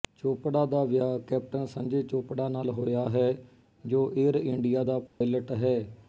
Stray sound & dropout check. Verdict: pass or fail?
fail